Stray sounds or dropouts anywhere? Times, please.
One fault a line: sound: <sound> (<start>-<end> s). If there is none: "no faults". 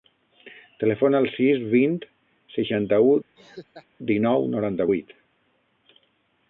sound: laugh (3.4-3.9 s)